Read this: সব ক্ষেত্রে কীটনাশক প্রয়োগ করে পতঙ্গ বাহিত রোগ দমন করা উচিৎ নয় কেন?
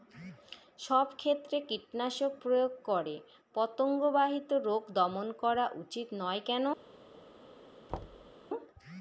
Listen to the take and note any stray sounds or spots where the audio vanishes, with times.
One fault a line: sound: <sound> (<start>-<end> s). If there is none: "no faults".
sound: thud (7.9-8.3 s)